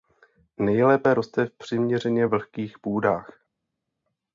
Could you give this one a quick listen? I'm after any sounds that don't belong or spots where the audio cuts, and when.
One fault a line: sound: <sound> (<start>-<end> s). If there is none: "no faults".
no faults